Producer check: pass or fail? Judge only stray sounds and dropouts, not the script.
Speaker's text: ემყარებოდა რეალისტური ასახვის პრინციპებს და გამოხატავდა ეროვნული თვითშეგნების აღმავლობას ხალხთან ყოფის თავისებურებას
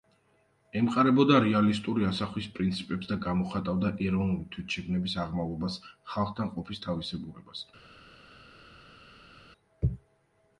pass